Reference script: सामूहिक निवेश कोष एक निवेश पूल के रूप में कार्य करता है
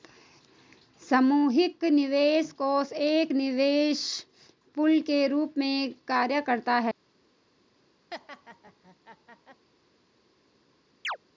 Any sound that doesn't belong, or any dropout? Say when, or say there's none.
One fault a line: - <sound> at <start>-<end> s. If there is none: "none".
- laugh at 8.1-9.7 s
- chirp at 11.0-11.2 s